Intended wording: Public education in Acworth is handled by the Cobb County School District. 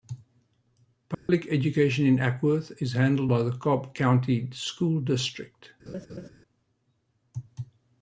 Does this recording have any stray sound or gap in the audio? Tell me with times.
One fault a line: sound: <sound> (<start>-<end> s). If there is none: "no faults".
sound: dropout (1.1-1.3 s)
sound: laugh (5.9-6.3 s)